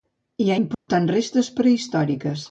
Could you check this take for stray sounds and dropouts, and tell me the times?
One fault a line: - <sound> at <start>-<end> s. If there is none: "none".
- dropout at 0.7-0.9 s